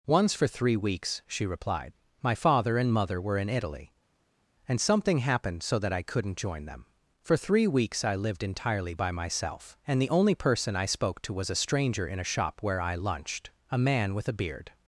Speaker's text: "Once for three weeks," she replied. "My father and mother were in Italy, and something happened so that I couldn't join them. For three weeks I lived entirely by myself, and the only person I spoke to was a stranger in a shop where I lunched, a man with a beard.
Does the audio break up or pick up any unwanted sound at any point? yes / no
no